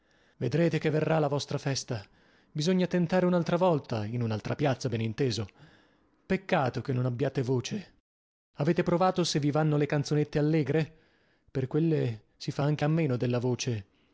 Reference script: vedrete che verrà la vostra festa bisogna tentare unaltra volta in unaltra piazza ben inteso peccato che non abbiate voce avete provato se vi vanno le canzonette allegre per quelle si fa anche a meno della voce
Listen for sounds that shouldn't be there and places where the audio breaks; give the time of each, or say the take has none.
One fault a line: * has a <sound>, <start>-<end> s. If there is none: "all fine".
all fine